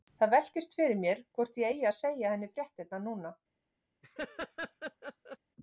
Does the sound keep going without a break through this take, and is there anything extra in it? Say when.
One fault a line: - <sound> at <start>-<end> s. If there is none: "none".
- laugh at 4.0-5.4 s